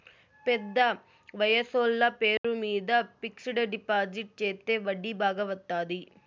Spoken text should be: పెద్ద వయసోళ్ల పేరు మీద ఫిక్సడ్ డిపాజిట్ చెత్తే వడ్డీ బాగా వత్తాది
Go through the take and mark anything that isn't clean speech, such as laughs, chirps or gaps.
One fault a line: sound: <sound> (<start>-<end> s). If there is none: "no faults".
sound: dropout (2.4-2.4 s)